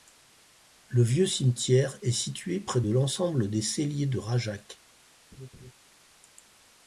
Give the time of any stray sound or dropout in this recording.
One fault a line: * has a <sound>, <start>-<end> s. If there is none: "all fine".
* has a laugh, 5.3-5.7 s